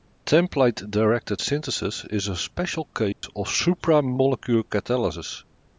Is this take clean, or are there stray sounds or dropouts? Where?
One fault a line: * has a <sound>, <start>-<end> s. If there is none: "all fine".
* has a dropout, 3.1-3.2 s